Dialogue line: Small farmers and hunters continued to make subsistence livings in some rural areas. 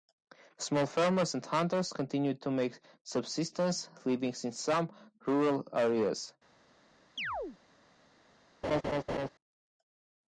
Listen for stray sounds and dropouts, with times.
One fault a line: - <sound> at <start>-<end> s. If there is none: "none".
- chirp at 7.2-7.6 s
- laugh at 8.6-9.3 s